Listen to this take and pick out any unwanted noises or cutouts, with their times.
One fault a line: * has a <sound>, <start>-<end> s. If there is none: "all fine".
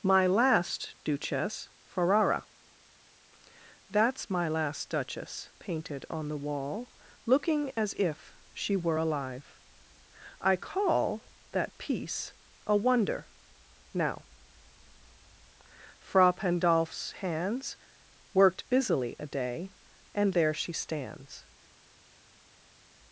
all fine